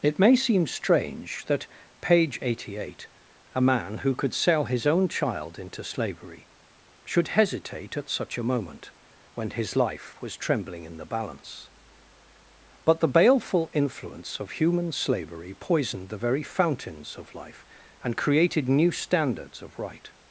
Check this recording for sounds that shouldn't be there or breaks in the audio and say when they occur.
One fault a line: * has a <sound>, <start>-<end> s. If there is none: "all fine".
all fine